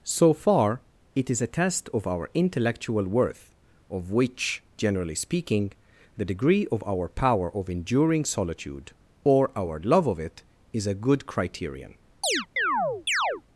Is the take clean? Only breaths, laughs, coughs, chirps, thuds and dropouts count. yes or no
no